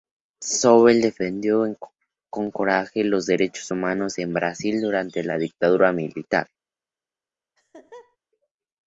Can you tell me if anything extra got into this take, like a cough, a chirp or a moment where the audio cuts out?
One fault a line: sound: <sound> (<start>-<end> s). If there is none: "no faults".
sound: laugh (7.6-8.2 s)